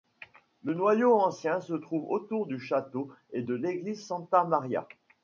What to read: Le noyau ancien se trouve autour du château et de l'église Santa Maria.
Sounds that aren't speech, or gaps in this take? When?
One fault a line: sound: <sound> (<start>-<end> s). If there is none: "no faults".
no faults